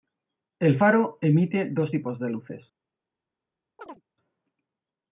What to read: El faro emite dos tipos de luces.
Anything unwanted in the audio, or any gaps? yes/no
yes